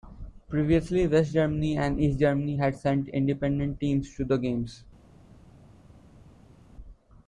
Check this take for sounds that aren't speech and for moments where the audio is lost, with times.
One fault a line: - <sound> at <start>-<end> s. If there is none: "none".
none